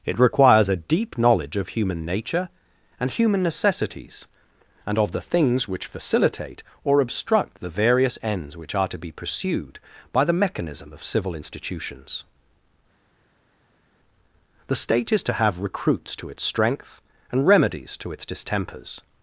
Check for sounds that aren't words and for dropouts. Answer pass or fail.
pass